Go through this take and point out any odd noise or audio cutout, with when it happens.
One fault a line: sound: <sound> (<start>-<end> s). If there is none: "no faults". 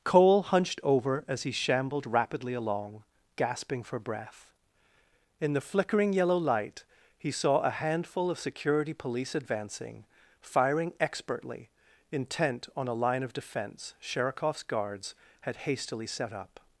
no faults